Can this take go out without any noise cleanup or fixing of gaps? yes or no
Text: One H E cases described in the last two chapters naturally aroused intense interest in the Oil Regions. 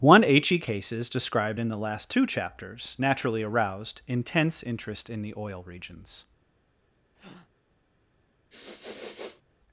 no